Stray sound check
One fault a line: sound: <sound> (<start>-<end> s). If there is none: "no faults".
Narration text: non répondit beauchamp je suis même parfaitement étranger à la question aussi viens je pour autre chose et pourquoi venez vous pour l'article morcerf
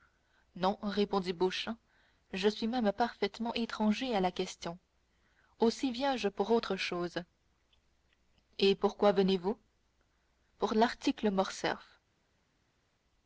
no faults